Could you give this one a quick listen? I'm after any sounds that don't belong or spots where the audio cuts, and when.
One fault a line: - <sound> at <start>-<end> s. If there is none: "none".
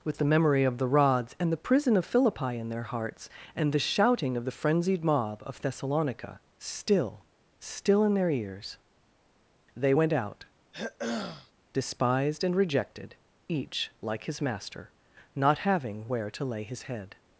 - throat clearing at 10.7-11.5 s